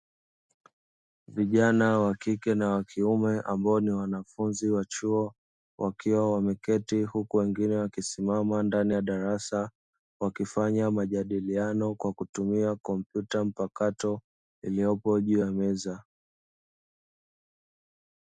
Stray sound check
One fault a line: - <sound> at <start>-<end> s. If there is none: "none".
none